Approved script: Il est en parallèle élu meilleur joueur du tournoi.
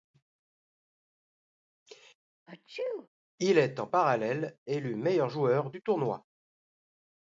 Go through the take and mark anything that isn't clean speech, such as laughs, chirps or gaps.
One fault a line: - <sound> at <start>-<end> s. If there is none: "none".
- sneeze at 2.5-3.1 s